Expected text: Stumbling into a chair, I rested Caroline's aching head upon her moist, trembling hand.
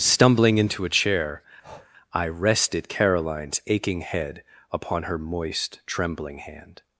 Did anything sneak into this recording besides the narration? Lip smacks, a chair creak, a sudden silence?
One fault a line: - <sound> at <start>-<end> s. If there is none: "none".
- breath at 1.6-1.9 s